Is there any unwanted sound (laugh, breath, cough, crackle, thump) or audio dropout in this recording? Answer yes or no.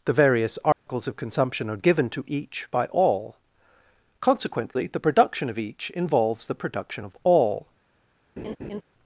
yes